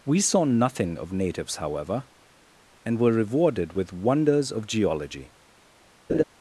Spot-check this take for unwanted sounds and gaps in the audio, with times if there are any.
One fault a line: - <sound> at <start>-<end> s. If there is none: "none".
- laugh at 6.1-6.2 s